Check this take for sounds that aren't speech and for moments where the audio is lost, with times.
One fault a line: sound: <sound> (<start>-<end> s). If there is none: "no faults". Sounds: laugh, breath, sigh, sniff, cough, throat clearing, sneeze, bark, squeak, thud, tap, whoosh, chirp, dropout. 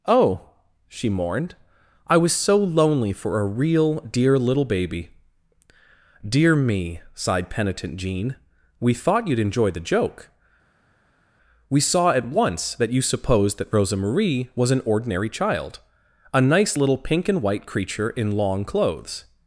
no faults